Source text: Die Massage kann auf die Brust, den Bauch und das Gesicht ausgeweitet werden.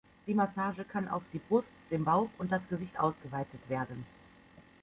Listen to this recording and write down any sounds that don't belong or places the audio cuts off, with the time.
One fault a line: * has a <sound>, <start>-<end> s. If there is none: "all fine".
all fine